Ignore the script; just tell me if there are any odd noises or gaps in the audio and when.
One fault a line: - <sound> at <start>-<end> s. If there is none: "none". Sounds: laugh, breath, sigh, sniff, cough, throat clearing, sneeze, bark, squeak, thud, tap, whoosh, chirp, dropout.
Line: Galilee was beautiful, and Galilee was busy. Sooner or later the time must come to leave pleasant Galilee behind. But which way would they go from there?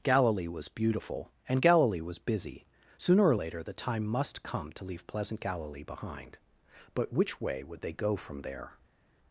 none